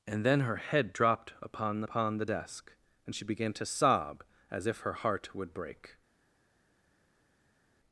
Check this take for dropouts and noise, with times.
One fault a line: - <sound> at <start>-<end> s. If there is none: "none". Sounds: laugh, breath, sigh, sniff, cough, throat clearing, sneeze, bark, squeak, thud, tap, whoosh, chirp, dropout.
none